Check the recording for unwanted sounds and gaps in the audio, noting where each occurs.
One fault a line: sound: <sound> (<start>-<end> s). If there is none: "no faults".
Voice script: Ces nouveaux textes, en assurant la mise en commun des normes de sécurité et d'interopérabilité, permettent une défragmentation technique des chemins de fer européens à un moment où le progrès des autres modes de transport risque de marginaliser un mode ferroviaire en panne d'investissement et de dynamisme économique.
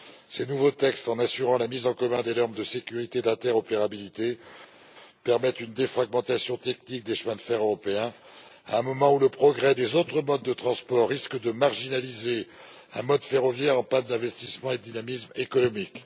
no faults